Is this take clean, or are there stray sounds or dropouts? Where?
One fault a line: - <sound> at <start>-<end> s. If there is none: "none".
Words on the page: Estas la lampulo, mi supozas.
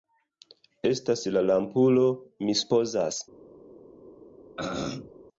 - throat clearing at 4.6-5.1 s